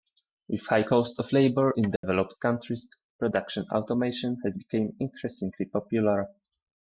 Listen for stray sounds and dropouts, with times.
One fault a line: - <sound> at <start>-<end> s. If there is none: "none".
- dropout at 2.0-2.0 s